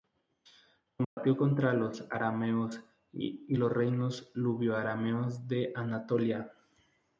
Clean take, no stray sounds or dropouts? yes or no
no